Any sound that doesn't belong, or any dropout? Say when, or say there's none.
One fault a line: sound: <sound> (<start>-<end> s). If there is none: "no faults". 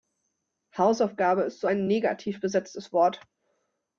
no faults